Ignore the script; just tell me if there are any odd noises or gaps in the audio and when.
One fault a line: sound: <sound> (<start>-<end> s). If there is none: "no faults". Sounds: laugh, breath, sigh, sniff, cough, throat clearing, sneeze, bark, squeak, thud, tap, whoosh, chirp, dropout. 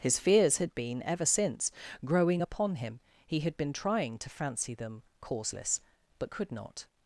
no faults